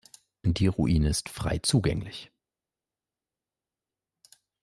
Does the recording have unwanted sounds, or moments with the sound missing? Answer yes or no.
no